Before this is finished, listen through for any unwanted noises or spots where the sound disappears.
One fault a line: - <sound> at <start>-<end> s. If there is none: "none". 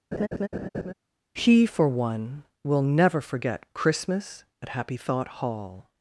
- laugh at 0.1-0.9 s